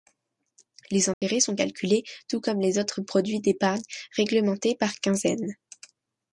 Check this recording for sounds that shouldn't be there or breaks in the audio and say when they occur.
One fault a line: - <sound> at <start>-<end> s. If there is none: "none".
- dropout at 1.1-1.2 s